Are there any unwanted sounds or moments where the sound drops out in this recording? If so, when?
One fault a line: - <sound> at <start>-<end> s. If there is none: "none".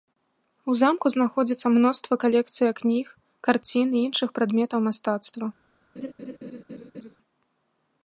- laugh at 6.0-7.2 s